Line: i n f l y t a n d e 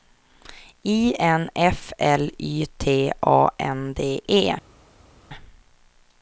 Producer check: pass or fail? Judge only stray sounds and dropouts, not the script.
pass